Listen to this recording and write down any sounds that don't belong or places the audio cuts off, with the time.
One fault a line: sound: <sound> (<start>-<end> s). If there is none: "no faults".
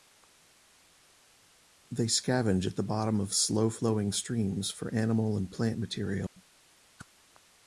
sound: dropout (6.3-6.4 s)
sound: whoosh (7.0-7.1 s)